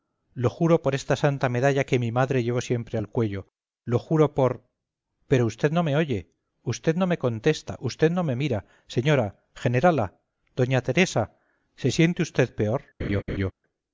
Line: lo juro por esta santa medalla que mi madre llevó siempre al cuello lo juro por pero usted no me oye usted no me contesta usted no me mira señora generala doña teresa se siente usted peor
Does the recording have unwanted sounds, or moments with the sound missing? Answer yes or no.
yes